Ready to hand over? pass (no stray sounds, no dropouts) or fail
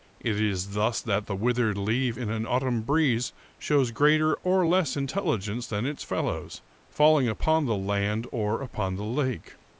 pass